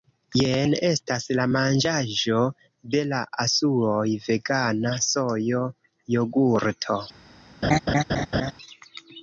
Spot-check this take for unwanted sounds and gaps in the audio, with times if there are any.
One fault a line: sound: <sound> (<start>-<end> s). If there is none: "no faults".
sound: laugh (7.6-8.5 s)